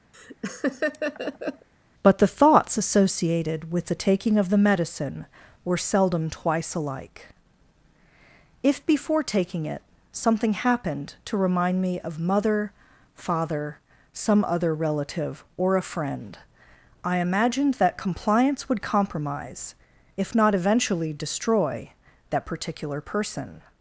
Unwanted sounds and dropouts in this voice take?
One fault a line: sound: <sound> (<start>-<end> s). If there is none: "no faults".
sound: laugh (0.1-1.7 s)